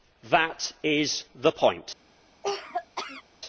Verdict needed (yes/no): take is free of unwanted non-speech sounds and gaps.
no